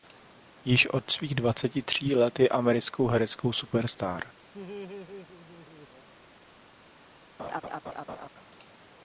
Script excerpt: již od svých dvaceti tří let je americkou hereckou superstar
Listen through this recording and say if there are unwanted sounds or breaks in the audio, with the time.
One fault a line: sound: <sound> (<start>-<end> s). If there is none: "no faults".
sound: laugh (4.5-6.1 s)
sound: laugh (7.4-8.3 s)